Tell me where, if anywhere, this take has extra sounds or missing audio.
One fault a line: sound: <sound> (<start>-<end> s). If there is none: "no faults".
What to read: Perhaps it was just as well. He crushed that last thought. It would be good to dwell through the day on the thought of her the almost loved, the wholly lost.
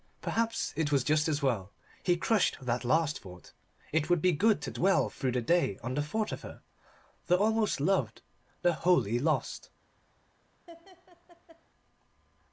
sound: laugh (10.7-11.6 s)